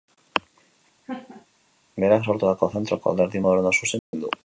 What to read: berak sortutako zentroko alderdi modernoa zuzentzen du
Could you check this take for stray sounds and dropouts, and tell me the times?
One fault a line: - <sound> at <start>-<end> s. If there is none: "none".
- laugh at 1.0-1.5 s
- dropout at 4.0-4.1 s